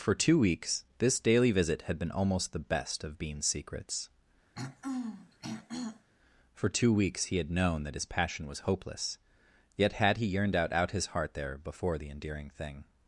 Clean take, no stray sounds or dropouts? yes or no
no